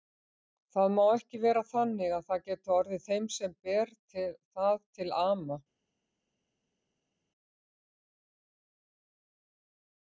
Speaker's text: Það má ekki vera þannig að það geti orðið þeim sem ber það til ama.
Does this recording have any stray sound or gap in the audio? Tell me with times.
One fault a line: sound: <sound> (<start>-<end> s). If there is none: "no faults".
no faults